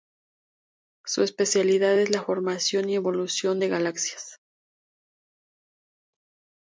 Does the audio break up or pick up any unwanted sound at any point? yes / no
no